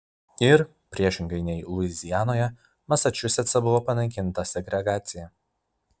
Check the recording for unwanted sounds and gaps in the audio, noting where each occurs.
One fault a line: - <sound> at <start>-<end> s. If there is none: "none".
none